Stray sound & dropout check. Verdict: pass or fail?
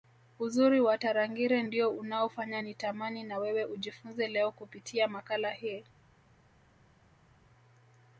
pass